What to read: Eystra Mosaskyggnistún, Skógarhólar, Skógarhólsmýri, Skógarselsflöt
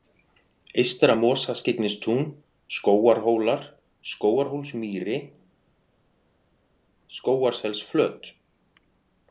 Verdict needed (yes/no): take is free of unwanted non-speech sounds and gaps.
yes